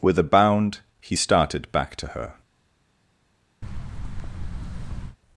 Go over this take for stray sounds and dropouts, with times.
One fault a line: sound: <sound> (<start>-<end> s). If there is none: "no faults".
sound: thud (3.6-5.2 s)